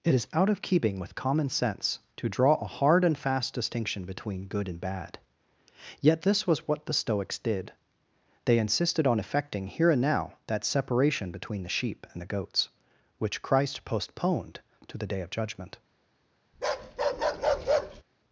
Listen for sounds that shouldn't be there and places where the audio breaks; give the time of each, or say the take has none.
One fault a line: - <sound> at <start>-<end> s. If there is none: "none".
- bark at 16.5-18.0 s